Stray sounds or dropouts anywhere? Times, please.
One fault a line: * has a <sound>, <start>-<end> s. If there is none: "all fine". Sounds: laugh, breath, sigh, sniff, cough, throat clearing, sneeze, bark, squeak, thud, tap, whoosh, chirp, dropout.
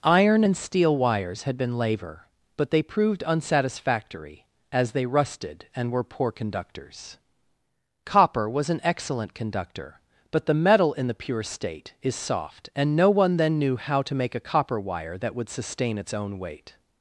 all fine